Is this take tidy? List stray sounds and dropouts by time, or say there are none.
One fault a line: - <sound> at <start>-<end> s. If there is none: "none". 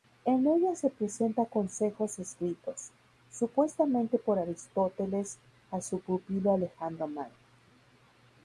none